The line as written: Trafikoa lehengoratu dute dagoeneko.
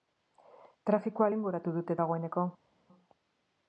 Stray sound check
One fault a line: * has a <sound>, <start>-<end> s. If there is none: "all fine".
all fine